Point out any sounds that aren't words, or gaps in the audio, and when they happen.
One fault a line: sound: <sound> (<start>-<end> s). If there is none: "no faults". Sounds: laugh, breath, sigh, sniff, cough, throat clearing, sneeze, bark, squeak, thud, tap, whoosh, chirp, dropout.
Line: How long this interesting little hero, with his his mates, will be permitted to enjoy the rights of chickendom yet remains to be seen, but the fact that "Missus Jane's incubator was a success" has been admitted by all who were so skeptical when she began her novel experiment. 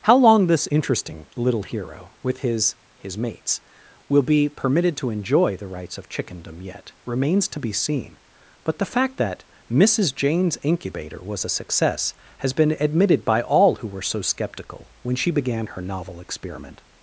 no faults